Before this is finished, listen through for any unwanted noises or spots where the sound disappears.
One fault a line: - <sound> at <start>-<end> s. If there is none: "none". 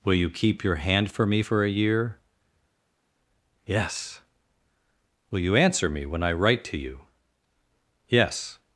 none